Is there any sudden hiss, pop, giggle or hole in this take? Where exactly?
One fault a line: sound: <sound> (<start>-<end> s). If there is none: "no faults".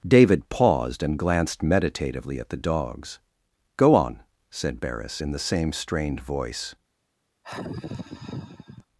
sound: sigh (7.4-8.9 s)